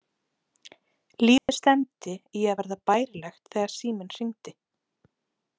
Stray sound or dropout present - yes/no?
yes